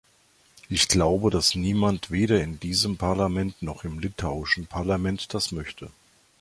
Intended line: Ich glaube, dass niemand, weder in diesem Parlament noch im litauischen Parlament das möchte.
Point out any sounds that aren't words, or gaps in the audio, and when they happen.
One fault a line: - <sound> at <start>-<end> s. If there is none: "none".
none